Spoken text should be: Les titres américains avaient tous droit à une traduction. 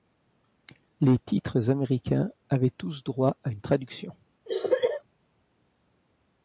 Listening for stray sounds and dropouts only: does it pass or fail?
fail